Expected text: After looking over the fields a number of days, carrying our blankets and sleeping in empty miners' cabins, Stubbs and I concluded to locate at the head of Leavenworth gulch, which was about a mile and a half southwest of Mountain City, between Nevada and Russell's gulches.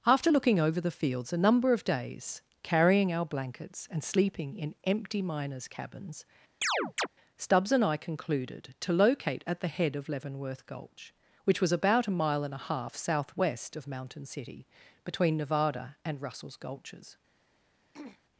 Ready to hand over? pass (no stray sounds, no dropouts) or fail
fail